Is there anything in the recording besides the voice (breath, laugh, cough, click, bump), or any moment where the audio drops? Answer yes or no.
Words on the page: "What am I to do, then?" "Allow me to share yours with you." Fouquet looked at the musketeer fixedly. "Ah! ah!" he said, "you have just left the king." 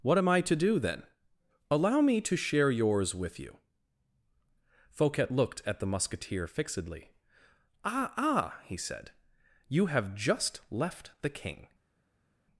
no